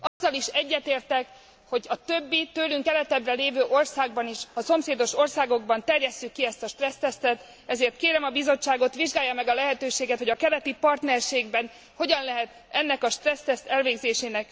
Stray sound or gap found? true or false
true